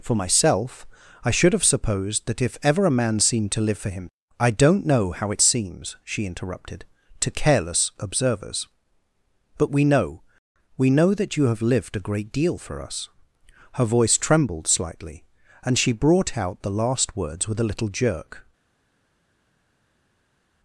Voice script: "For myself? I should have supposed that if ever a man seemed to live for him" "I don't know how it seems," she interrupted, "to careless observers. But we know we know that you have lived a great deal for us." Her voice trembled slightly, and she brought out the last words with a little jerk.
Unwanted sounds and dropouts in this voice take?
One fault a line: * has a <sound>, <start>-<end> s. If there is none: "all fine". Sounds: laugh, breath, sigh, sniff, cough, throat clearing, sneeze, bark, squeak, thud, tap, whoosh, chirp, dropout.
all fine